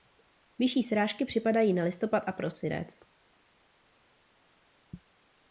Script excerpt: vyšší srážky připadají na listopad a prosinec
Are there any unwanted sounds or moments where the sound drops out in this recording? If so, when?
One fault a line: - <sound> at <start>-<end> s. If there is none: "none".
none